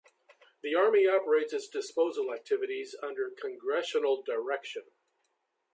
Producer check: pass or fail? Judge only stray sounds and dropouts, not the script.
pass